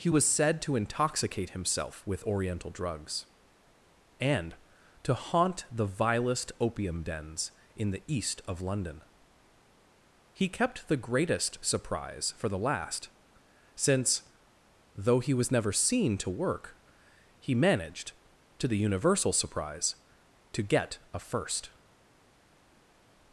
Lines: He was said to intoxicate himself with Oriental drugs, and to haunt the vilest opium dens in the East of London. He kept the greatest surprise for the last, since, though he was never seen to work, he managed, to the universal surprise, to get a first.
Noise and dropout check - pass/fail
pass